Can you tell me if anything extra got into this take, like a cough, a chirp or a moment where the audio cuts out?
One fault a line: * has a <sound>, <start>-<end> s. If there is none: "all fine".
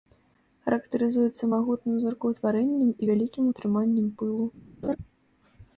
* has a laugh, 4.8-5.0 s